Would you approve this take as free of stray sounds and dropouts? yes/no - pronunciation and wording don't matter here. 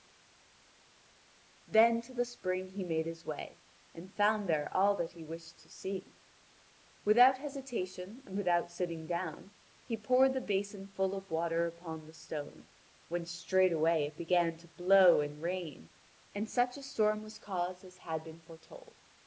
yes